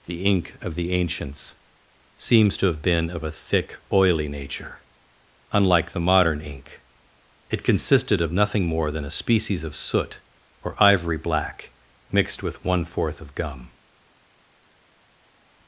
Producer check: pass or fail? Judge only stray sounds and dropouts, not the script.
pass